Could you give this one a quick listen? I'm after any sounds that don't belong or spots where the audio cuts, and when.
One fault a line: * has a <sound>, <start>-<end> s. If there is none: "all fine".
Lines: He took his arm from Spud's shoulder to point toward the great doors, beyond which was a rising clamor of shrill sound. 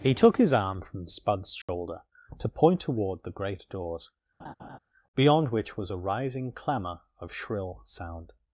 * has a dropout, 1.6-1.7 s
* has a laugh, 4.4-4.8 s